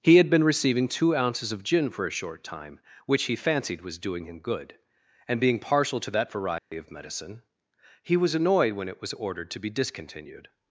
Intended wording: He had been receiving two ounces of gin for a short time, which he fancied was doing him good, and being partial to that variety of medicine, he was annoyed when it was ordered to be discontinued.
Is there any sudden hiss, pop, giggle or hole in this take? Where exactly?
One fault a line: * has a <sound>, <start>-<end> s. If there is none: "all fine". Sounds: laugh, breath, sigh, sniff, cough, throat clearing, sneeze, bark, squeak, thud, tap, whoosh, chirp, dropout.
* has a dropout, 6.6-6.7 s